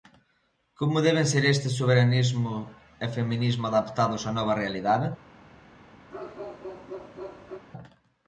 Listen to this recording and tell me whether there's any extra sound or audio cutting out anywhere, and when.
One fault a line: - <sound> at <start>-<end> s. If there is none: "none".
- bark at 6.1-7.6 s